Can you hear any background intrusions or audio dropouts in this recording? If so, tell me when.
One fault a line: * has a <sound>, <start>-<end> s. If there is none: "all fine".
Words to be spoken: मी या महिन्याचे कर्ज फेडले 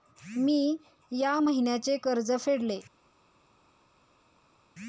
all fine